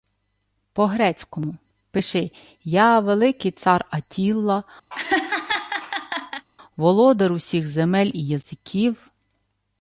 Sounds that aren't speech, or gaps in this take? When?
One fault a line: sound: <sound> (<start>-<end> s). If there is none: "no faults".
sound: laugh (4.9-6.5 s)